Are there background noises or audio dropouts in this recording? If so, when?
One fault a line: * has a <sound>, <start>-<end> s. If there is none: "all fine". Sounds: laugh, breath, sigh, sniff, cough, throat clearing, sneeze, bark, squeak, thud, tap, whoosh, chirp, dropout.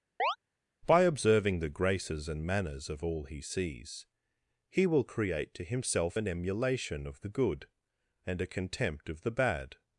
* has a chirp, 0.2-0.4 s